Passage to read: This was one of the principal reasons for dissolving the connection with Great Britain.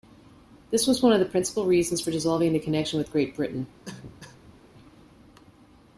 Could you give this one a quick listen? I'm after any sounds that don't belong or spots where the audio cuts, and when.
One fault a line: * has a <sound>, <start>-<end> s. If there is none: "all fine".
* has a cough, 3.9-4.6 s